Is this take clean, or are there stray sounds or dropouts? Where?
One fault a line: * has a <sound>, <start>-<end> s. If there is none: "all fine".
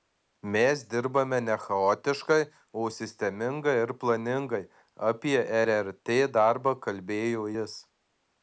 all fine